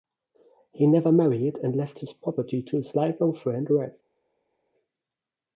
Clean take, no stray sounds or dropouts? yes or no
yes